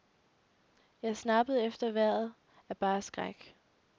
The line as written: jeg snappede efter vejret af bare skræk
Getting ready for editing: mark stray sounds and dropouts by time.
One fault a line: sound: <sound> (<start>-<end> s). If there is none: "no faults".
no faults